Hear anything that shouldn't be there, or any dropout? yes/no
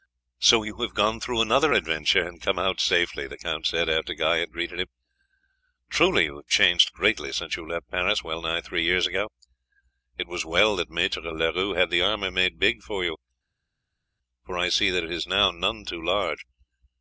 no